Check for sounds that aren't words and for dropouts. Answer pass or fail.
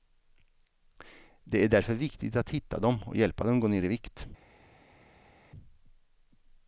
pass